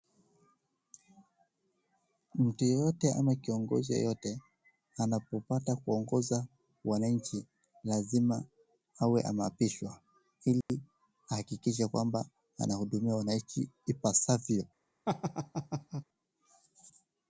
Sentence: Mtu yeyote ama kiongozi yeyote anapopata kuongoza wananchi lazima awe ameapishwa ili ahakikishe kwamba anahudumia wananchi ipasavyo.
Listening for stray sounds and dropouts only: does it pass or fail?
fail